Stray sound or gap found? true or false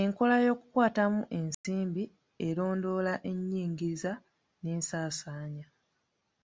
true